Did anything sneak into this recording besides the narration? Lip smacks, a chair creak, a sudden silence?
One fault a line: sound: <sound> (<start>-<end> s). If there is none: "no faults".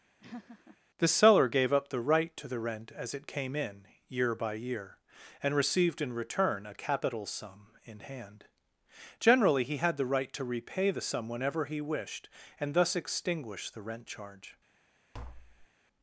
sound: laugh (0.2-0.8 s)
sound: tap (15.1-15.7 s)